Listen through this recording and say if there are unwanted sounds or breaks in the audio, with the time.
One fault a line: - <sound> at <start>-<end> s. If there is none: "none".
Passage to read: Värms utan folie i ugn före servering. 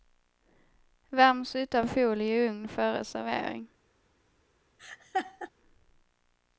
- laugh at 4.8-5.5 s